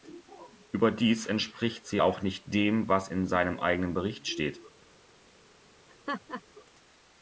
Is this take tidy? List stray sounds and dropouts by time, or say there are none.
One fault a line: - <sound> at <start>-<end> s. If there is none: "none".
- laugh at 5.9-6.4 s